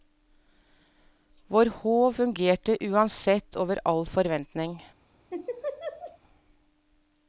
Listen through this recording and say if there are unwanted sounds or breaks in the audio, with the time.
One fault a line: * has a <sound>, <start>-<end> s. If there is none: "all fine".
* has a laugh, 5.3-6.2 s